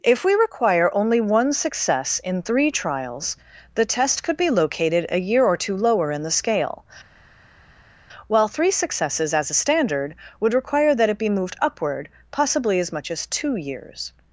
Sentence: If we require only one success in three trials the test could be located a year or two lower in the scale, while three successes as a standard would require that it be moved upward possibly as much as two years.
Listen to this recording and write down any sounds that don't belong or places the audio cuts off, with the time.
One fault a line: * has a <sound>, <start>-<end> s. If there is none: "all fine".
all fine